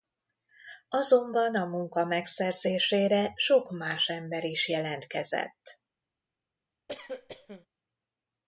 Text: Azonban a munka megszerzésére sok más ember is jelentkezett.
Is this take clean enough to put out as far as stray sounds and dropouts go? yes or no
no